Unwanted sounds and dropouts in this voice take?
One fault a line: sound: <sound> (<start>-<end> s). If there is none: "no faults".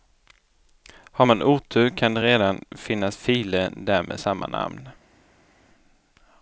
no faults